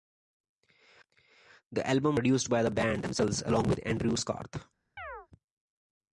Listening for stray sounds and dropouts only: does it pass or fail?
fail